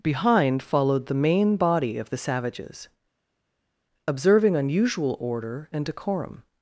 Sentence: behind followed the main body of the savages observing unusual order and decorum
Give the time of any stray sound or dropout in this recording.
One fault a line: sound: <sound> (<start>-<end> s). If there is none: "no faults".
no faults